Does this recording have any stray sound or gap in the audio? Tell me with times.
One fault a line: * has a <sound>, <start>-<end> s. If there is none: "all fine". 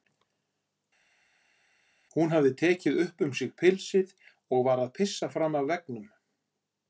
all fine